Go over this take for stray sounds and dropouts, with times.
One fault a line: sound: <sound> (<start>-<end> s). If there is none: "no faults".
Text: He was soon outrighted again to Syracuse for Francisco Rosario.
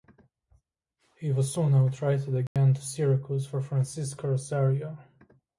sound: dropout (2.5-2.6 s)